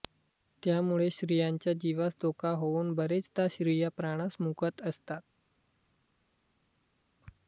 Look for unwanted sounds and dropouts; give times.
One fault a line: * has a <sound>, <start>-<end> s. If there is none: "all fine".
all fine